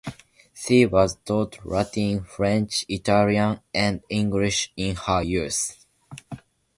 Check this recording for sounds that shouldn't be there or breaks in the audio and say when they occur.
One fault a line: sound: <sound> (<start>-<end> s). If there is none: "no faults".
no faults